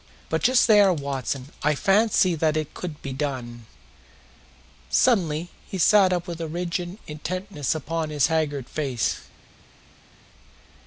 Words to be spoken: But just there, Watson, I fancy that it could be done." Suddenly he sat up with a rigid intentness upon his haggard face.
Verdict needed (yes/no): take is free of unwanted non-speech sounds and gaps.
yes